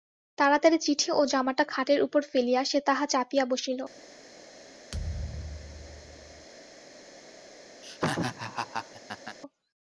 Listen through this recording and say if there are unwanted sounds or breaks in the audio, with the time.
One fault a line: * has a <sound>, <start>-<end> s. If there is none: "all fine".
* has a thud, 4.9-6.5 s
* has a laugh, 7.8-9.4 s